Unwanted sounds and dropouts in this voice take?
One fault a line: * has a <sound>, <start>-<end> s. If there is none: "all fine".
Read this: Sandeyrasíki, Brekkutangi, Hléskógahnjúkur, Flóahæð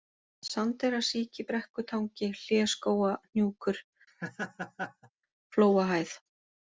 * has a laugh, 4.1-5.1 s